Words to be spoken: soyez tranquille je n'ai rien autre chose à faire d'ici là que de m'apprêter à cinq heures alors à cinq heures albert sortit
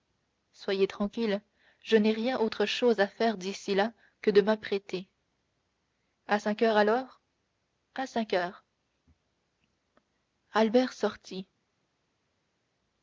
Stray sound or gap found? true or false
false